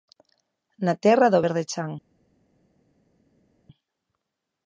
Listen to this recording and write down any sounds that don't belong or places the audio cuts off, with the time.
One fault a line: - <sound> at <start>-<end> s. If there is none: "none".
none